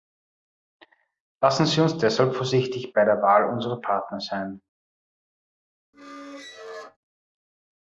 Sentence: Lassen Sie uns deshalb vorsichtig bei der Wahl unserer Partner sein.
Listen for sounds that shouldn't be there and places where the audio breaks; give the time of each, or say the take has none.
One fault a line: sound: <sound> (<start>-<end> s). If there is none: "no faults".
sound: squeak (5.9-7.0 s)